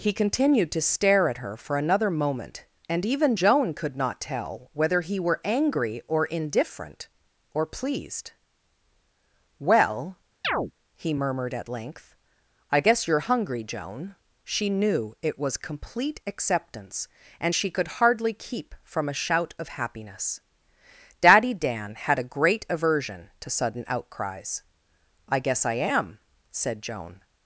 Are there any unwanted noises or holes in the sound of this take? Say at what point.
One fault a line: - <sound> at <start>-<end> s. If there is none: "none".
- chirp at 10.4-10.7 s